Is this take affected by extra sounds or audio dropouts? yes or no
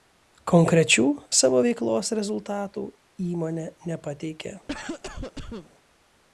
yes